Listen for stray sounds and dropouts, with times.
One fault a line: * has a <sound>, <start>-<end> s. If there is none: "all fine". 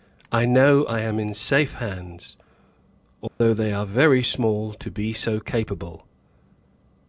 * has a dropout, 3.3-3.4 s